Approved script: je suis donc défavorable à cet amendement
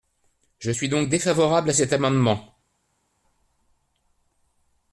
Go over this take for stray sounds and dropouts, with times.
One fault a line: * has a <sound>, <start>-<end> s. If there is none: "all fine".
all fine